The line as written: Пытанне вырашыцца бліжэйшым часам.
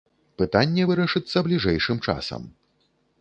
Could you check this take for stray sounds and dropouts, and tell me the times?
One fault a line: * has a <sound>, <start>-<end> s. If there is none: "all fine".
all fine